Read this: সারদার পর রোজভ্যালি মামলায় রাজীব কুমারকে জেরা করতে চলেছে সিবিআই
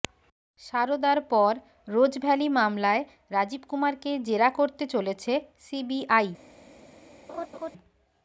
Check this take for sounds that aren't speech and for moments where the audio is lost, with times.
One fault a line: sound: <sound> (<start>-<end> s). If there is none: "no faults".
sound: laugh (7.3-7.7 s)